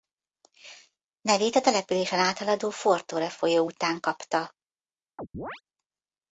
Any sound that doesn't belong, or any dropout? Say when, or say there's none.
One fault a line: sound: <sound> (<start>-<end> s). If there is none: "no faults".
sound: chirp (5.2-5.6 s)